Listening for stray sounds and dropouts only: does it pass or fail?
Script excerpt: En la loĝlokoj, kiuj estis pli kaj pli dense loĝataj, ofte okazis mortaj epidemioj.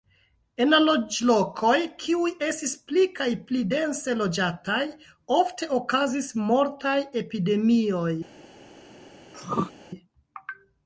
fail